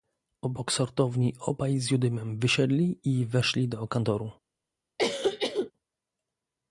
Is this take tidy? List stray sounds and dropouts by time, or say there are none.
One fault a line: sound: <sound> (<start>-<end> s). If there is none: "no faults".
sound: cough (5.0-5.7 s)